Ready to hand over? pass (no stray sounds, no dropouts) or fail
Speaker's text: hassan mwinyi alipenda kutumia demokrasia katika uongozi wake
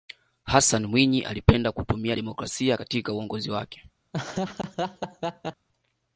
fail